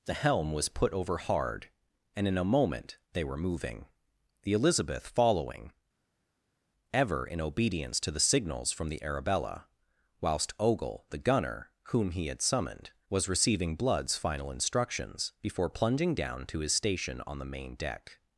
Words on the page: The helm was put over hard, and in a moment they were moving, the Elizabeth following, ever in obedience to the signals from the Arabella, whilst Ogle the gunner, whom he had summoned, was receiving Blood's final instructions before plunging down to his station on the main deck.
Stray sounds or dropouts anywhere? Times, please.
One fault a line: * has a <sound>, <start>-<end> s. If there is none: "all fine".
all fine